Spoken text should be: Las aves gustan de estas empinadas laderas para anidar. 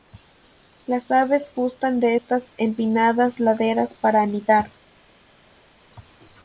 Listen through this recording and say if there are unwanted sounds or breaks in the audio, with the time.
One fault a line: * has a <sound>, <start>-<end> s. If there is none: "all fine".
all fine